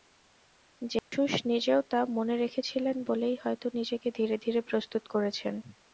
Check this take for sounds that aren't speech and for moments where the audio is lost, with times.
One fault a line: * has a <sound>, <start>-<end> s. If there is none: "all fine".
* has a dropout, 1.0-1.1 s